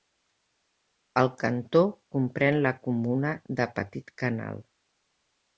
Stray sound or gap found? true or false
false